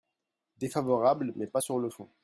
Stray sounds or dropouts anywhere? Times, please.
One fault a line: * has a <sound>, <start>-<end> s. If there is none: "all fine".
all fine